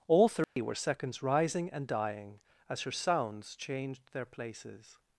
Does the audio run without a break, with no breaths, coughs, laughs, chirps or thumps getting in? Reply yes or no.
no